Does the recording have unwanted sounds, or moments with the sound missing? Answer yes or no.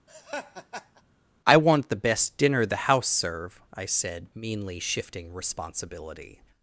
yes